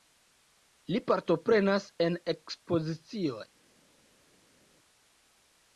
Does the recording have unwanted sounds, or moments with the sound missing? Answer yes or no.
no